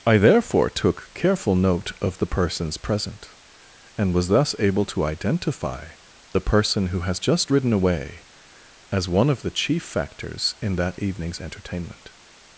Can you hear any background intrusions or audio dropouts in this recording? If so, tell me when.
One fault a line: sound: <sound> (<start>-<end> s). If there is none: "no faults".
no faults